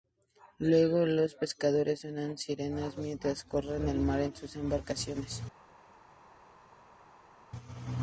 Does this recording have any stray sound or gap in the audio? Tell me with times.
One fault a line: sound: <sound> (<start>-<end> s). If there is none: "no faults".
no faults